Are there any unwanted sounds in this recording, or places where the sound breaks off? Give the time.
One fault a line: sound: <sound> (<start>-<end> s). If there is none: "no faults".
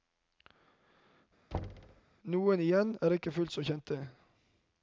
sound: thud (1.5-2.0 s)